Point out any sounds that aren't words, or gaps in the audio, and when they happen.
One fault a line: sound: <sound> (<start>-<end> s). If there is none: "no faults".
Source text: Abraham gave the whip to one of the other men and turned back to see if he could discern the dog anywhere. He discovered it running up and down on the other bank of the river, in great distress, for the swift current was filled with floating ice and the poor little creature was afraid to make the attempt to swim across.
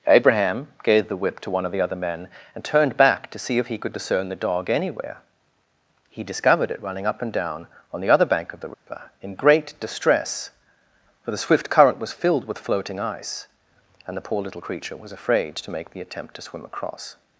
sound: dropout (8.7-8.9 s)